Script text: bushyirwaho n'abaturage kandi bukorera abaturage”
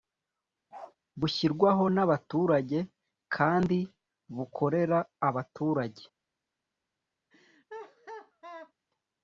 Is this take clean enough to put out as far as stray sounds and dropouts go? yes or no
no